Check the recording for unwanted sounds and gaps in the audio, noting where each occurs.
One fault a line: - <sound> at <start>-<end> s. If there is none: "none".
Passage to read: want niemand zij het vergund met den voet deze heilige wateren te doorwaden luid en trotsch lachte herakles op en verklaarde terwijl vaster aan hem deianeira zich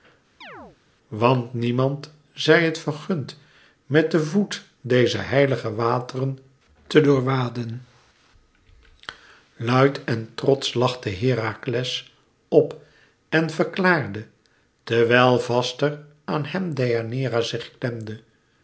- chirp at 0.4-0.8 s